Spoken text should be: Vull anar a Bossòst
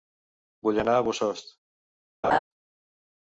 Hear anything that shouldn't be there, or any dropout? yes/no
yes